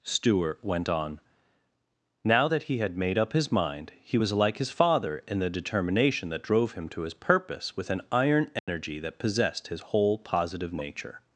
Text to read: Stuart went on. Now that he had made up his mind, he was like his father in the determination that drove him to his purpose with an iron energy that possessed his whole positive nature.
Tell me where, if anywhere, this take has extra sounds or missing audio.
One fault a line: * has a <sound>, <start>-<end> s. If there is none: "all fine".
* has a dropout, 8.6-8.7 s